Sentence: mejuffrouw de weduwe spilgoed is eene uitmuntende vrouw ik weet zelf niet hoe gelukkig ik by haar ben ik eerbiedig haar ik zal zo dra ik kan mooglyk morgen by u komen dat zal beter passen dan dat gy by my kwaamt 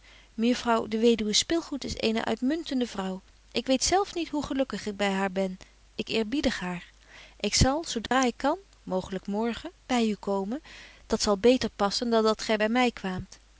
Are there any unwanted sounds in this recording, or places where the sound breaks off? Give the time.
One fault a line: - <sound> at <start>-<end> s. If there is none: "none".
- dropout at 8.1-8.1 s